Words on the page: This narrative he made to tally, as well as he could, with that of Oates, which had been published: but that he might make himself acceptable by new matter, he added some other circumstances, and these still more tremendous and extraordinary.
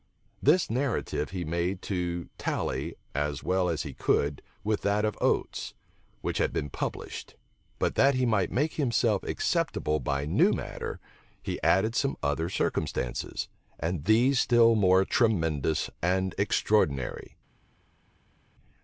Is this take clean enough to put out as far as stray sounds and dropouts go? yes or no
yes